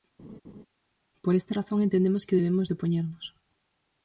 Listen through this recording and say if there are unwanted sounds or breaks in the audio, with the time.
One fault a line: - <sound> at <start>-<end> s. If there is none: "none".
- laugh at 0.2-0.7 s